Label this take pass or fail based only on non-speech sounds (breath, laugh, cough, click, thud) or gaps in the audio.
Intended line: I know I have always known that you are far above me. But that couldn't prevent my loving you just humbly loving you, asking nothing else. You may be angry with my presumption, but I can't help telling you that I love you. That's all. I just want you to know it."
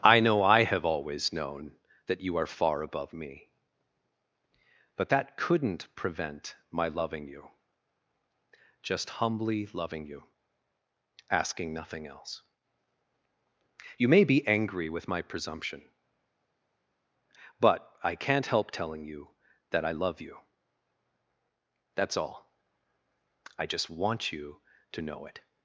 pass